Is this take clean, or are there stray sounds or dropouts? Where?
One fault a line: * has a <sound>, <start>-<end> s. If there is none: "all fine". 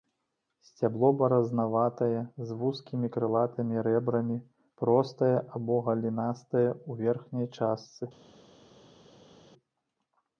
all fine